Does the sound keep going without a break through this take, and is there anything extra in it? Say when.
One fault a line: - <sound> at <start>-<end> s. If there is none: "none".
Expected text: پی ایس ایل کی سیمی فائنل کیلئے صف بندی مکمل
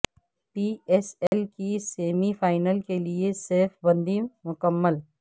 - dropout at 1.3-1.3 s